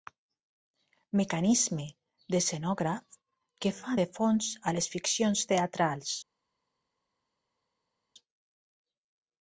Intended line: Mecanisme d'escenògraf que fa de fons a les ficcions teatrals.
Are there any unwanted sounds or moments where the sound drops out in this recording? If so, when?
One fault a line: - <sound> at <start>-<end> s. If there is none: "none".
none